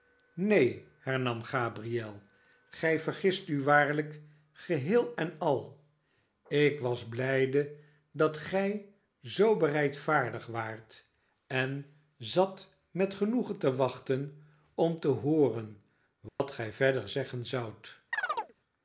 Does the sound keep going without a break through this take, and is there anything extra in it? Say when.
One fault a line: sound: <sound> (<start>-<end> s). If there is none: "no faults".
sound: dropout (16.3-16.4 s)
sound: chirp (18.1-18.5 s)